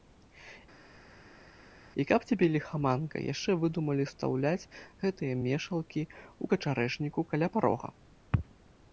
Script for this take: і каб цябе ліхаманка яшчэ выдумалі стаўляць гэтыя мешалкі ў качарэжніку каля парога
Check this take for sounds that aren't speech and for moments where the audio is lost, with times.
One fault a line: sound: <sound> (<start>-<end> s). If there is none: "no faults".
no faults